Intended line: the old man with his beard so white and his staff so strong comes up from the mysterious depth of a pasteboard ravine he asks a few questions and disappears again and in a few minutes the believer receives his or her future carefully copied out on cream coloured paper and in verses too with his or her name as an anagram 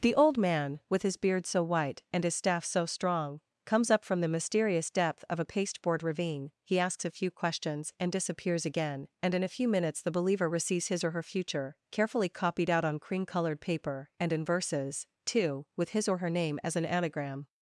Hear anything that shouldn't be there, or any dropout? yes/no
no